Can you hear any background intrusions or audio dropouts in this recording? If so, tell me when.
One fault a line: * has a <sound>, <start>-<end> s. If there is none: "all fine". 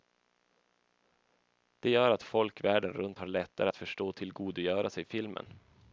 all fine